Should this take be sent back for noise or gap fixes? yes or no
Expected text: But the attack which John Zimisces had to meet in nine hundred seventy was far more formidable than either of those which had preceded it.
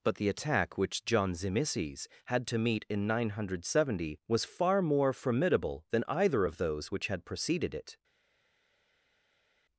no